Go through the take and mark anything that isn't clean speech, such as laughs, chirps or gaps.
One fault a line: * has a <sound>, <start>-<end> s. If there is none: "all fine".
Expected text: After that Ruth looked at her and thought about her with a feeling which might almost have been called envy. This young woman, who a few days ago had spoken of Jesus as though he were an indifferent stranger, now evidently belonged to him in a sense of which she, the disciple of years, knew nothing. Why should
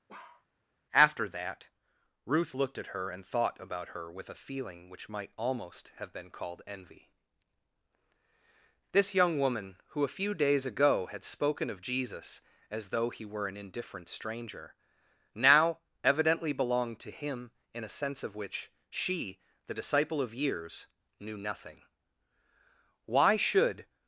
* has a bark, 0.1-0.5 s